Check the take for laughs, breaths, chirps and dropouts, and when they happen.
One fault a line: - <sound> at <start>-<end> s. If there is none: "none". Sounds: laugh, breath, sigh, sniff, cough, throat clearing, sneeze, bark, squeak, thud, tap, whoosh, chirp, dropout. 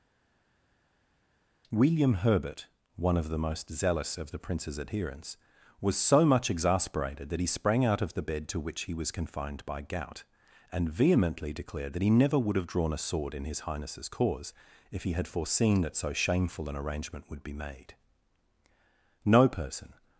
none